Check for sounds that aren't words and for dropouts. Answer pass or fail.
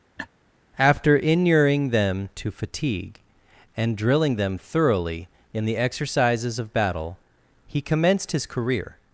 fail